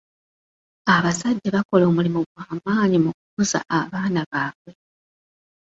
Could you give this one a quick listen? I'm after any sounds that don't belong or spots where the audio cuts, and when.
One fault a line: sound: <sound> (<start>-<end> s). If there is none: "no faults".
no faults